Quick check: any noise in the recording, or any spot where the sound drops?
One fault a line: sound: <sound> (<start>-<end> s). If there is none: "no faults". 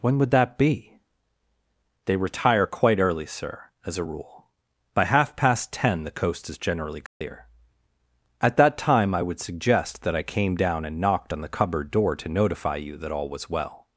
sound: dropout (7.1-7.2 s)